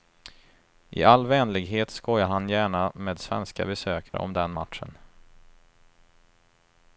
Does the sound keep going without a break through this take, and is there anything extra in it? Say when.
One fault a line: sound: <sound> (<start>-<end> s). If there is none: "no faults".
sound: dropout (4.1-4.1 s)